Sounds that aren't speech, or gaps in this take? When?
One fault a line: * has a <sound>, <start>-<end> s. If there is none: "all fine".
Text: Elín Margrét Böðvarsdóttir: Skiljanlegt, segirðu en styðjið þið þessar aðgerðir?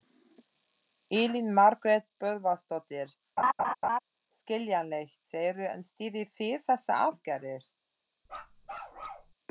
* has a laugh, 3.4-4.0 s
* has a bark, 8.3-9.3 s